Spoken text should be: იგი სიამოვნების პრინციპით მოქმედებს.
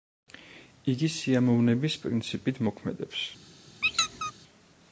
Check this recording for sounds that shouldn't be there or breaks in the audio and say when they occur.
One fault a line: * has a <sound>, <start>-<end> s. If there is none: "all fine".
* has a squeak, 3.8-4.3 s